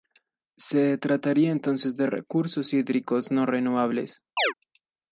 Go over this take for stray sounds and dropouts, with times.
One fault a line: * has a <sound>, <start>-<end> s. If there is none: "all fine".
* has a chirp, 4.4-4.5 s